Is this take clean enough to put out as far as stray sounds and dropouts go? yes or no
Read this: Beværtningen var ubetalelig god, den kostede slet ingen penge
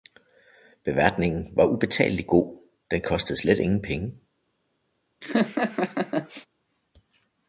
no